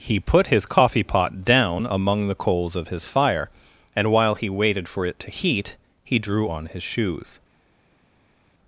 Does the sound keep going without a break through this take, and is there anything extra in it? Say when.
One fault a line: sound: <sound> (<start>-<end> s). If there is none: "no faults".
no faults